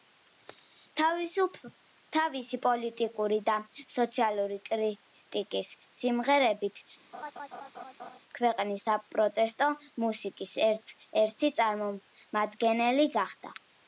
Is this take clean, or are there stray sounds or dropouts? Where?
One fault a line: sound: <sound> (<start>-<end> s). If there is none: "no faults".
sound: laugh (7.1-8.2 s)